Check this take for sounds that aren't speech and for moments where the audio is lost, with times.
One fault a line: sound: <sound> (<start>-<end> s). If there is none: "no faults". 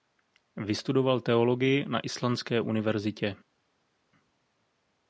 no faults